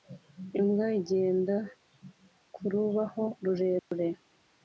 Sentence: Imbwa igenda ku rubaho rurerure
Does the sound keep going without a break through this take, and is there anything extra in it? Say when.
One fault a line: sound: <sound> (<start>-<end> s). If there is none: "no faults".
sound: dropout (3.8-3.9 s)